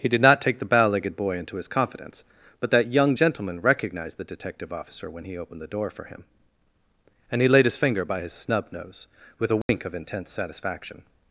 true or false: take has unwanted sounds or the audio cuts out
true